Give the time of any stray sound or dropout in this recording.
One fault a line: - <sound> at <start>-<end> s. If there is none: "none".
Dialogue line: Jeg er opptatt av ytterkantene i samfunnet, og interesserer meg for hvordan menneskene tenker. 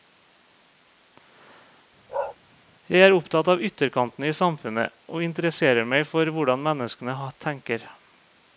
- bark at 2.1-2.4 s